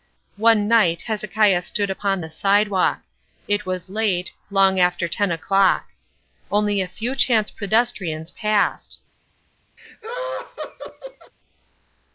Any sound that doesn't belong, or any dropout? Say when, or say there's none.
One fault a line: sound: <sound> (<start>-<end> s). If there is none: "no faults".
sound: laugh (9.8-11.3 s)